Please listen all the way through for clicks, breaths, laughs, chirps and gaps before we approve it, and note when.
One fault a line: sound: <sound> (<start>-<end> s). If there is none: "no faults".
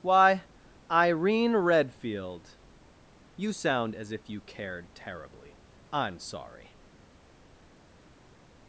no faults